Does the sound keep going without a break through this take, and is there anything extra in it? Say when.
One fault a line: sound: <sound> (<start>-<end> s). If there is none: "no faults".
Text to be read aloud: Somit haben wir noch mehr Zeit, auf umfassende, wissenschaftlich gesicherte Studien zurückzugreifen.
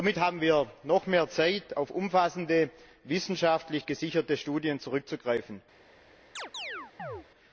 sound: chirp (6.4-7.3 s)